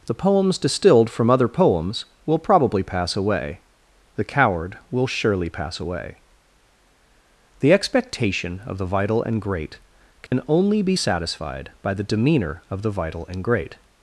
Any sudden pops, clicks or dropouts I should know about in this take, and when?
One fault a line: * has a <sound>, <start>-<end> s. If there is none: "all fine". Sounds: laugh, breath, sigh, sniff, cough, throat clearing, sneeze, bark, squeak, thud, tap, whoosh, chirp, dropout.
* has a dropout, 10.3-10.3 s